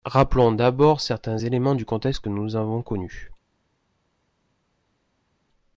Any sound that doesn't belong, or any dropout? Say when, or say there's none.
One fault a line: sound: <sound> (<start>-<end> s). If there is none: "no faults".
no faults